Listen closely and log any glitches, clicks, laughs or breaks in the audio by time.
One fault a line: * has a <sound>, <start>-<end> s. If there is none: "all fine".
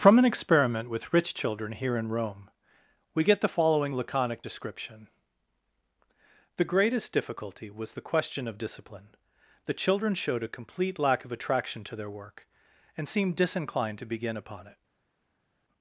all fine